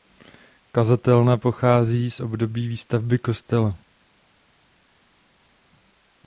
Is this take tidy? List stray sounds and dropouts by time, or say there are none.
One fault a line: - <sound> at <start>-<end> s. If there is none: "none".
none